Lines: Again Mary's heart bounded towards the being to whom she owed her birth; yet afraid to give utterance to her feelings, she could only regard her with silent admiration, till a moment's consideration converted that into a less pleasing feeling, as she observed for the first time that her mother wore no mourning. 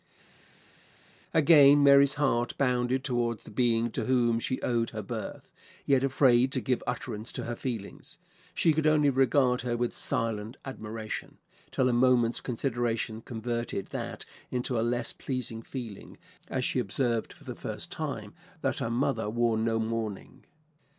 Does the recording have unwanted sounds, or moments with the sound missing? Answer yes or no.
no